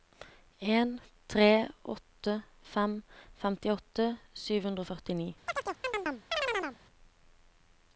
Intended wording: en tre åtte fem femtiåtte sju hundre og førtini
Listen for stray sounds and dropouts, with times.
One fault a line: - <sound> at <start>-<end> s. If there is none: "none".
- chirp at 5.5-6.8 s